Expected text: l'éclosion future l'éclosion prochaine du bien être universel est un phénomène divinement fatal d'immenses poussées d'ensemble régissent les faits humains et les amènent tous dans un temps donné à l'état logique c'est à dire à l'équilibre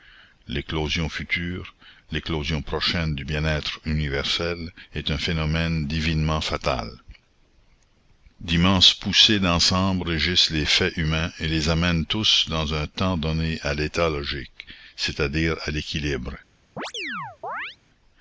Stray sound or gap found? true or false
true